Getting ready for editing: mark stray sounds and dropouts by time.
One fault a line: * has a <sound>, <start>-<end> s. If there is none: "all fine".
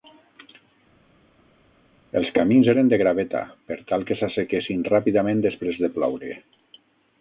all fine